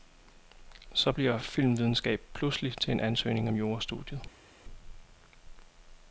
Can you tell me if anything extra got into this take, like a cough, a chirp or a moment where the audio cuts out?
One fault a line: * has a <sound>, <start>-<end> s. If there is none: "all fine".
all fine